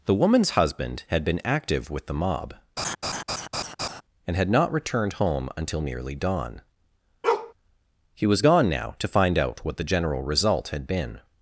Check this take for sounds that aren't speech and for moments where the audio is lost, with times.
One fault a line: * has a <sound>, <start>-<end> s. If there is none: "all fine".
* has a laugh, 2.8-4.0 s
* has a bark, 7.2-7.5 s